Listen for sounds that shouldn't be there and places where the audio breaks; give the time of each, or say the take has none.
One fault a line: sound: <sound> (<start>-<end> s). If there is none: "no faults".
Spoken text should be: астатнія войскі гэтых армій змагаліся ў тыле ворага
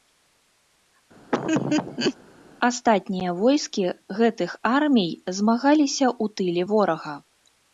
sound: laugh (1.3-2.2 s)